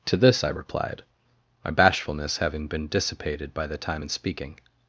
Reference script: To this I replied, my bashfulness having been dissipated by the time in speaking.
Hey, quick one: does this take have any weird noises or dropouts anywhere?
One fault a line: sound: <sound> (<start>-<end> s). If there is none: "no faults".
no faults